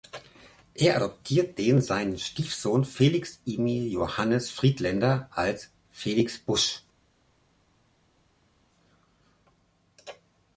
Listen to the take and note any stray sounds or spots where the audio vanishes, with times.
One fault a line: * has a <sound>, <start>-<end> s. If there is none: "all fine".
all fine